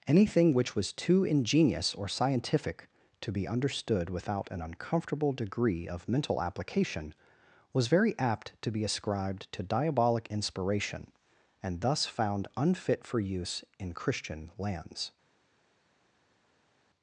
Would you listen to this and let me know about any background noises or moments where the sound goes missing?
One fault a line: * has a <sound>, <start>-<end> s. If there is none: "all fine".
all fine